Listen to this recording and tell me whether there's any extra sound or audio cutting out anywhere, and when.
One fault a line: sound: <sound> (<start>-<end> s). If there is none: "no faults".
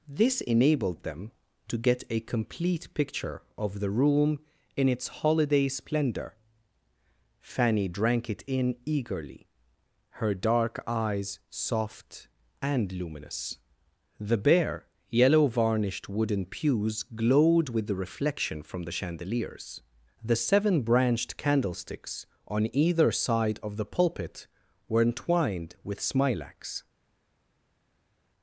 no faults